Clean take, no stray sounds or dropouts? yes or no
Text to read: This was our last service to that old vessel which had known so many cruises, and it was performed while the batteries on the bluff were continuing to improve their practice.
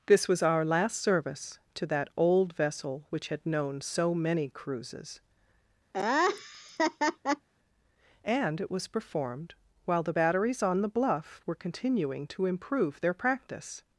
no